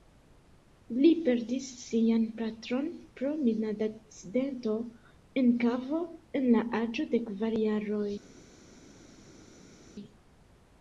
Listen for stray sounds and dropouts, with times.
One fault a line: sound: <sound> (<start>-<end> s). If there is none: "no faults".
no faults